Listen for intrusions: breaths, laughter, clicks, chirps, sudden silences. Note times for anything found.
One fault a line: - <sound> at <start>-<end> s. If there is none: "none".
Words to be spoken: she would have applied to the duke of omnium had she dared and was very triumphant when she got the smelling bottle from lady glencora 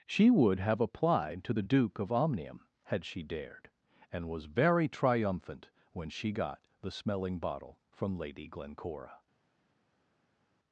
none